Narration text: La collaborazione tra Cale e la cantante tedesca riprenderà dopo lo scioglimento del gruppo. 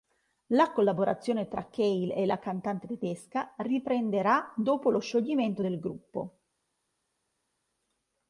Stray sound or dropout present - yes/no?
no